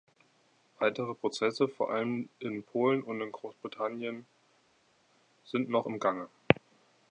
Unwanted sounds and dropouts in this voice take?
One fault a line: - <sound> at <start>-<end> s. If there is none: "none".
none